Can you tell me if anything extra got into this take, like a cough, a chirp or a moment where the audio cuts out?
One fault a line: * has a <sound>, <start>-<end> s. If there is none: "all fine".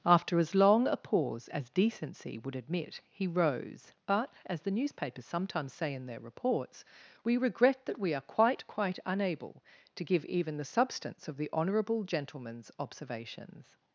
all fine